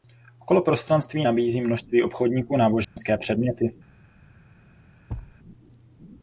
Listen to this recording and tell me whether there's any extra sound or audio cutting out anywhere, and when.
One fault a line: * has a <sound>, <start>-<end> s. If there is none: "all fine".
* has a dropout, 2.8-3.0 s
* has a thud, 5.1-5.4 s